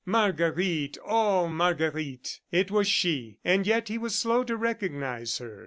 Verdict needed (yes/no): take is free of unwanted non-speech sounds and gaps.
yes